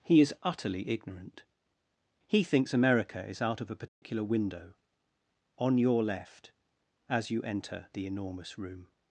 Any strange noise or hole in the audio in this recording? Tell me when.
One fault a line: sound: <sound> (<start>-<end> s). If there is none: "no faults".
sound: dropout (3.9-4.0 s)